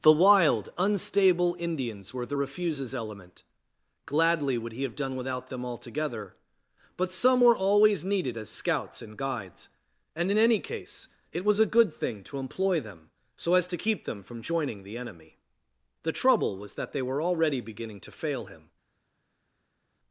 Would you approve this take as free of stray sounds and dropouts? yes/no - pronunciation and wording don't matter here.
yes